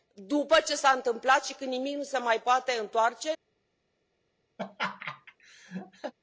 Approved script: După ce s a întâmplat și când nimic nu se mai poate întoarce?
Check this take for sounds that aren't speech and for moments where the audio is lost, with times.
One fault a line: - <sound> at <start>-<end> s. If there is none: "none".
- laugh at 4.6-6.1 s